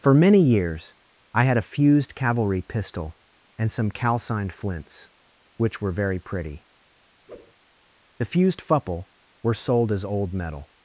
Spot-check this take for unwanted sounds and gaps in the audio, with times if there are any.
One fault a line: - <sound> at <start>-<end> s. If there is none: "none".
- whoosh at 7.3-7.5 s